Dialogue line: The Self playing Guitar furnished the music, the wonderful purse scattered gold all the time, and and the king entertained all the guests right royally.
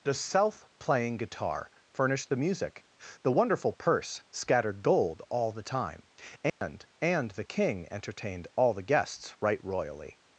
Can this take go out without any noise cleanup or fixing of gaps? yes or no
no